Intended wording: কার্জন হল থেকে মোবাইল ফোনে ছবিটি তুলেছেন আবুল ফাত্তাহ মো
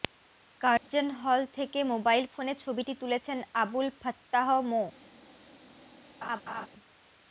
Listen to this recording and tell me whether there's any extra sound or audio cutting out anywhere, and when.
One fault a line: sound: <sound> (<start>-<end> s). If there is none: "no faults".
sound: dropout (0.8-0.9 s)
sound: laugh (6.2-6.7 s)